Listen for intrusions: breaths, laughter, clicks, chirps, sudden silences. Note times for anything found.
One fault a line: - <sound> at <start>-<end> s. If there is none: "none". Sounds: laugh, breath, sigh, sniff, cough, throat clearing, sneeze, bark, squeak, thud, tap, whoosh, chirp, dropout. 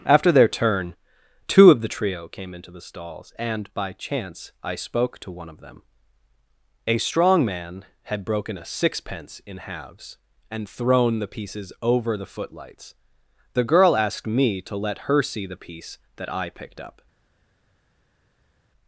none